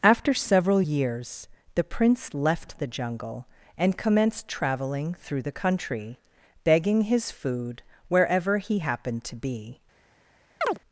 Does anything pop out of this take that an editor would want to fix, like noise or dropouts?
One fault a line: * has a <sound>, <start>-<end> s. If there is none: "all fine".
* has a chirp, 10.6-10.8 s